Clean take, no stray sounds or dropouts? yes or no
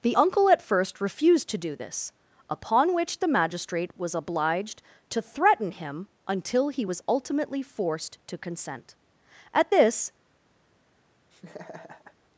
no